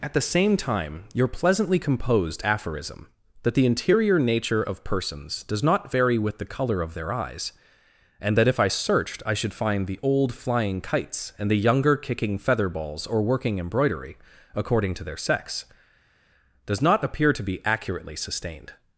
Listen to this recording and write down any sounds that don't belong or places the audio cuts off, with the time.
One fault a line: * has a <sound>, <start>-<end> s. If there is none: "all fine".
all fine